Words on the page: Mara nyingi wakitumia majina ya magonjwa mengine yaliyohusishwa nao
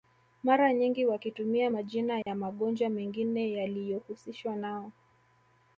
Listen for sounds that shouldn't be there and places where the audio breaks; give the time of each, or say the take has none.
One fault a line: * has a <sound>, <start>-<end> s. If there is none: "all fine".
* has a dropout, 2.2-2.3 s